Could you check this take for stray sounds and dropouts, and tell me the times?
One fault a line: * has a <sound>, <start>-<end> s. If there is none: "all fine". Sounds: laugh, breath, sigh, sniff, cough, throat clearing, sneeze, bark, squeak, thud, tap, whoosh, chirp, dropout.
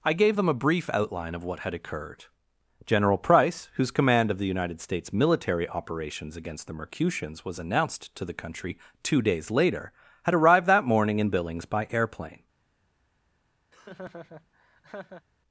* has a laugh, 13.7-15.3 s